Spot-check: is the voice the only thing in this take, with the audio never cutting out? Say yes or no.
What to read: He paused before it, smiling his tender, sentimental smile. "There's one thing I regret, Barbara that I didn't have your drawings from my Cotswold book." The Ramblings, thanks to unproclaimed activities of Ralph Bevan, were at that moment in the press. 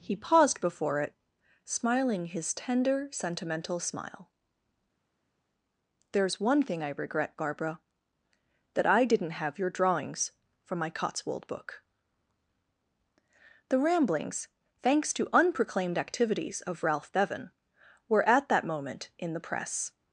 yes